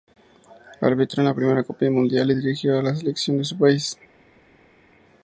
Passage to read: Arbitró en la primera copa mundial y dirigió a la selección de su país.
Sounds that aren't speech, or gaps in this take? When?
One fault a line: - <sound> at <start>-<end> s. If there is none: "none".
none